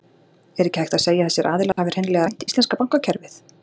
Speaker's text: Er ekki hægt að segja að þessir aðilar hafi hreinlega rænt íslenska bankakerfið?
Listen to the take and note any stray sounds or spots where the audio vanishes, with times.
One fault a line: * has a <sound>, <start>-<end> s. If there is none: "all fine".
* has a dropout, 1.7-1.8 s